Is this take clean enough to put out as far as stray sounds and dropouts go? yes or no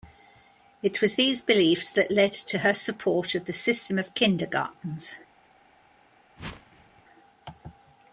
no